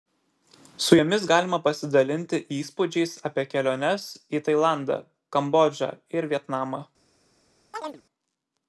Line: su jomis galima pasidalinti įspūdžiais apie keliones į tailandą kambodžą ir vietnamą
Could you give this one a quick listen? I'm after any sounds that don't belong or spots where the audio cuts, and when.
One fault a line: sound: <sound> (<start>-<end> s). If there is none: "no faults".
sound: chirp (7.7-8.0 s)